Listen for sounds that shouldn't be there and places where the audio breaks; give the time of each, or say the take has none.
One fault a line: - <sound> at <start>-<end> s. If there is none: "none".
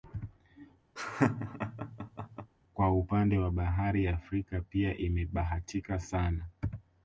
- laugh at 1.0-2.5 s